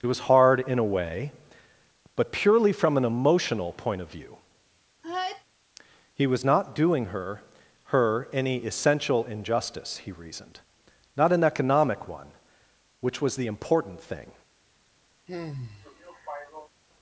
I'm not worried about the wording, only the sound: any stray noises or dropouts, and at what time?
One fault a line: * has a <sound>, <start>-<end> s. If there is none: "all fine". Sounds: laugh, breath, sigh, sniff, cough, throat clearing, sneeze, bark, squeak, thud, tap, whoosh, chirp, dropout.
* has a sneeze, 5.0-5.4 s
* has a sigh, 15.3-16.7 s